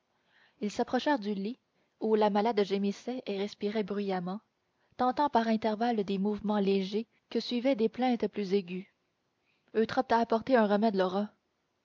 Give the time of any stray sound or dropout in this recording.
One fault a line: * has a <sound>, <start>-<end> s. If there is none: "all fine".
all fine